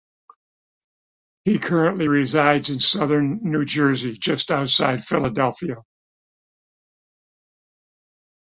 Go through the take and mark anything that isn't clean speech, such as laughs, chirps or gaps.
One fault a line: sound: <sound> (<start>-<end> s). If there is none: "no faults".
no faults